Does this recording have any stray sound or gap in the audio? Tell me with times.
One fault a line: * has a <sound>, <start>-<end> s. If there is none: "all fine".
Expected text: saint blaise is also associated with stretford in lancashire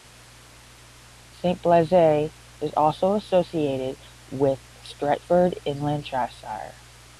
all fine